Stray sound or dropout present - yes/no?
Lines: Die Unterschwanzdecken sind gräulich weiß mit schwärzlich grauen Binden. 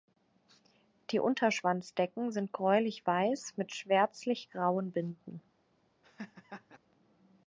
yes